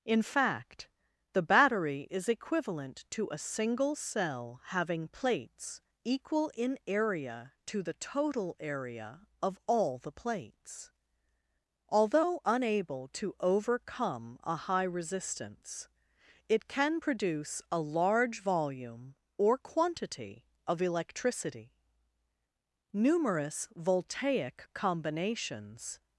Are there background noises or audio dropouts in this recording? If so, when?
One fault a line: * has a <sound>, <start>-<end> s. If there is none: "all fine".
all fine